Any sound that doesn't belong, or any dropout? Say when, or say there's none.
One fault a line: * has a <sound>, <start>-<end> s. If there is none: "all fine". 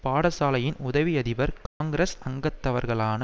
* has a dropout, 1.7-1.8 s